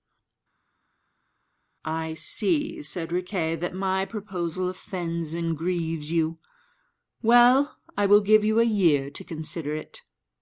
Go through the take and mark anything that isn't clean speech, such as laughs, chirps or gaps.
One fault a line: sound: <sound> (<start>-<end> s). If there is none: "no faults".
no faults